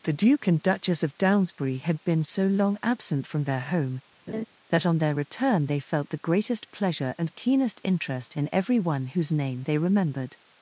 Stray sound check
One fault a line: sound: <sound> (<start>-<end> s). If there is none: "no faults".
sound: laugh (4.3-4.4 s)